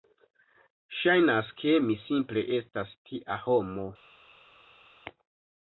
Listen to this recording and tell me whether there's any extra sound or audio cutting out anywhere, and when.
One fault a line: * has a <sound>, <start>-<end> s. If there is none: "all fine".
all fine